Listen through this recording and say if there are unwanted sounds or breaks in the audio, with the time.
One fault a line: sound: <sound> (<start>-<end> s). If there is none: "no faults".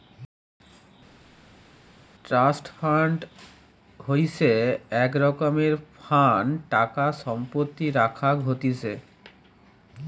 no faults